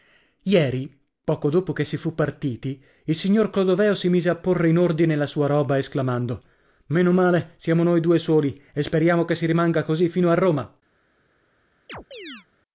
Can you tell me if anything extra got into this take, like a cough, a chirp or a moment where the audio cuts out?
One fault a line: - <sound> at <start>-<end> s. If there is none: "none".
- chirp at 11.9-12.5 s